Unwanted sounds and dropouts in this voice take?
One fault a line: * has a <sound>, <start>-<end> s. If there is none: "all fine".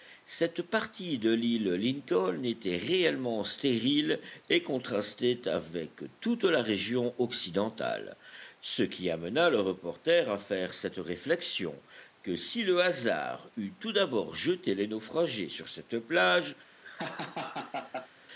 * has a laugh, 16.8-18.1 s